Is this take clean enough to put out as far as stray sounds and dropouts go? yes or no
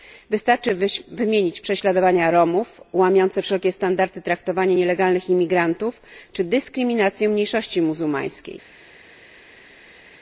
yes